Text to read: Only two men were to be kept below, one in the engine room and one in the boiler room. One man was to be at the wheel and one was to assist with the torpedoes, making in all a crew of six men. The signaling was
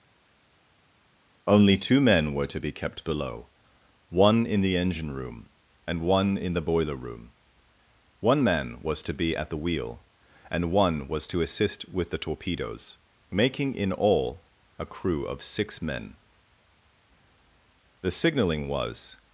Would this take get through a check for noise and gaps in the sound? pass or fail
pass